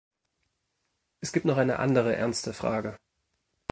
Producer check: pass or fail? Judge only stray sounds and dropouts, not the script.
pass